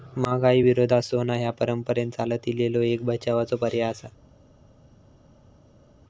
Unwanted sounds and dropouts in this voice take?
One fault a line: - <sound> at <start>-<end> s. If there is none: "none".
none